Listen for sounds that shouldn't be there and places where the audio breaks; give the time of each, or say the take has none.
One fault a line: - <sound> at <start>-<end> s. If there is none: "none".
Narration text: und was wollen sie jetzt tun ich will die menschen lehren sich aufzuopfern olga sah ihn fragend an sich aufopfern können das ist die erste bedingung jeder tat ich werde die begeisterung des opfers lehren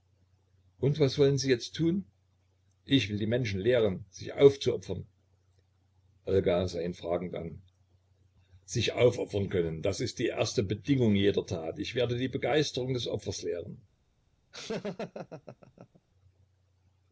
- laugh at 14.5-16.0 s